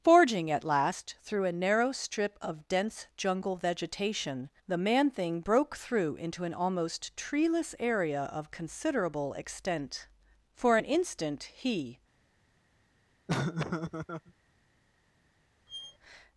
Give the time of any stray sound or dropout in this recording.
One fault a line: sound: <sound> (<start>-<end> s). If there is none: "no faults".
sound: laugh (13.3-14.3 s)
sound: squeak (15.7-16.0 s)